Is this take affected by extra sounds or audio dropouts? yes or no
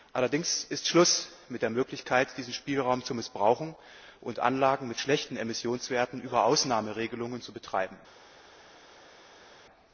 no